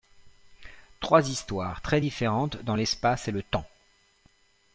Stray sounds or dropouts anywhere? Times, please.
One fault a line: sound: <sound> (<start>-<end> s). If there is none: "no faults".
no faults